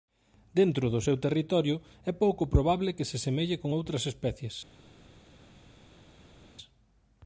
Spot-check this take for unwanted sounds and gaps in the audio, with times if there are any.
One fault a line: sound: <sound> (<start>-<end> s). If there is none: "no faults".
no faults